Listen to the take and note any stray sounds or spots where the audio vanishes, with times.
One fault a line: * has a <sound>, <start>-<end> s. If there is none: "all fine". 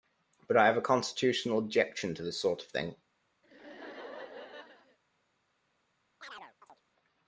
* has a laugh, 3.4-5.0 s
* has a chirp, 6.2-6.8 s